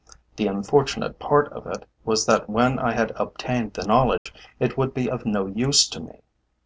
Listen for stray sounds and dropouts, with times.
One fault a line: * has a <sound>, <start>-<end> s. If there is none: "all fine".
* has a dropout, 4.2-4.3 s